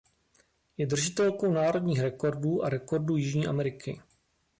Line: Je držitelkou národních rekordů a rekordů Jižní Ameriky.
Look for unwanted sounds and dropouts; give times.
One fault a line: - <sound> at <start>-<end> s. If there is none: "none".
none